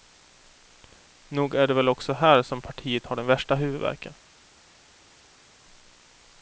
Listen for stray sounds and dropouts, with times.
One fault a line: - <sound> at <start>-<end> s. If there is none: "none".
none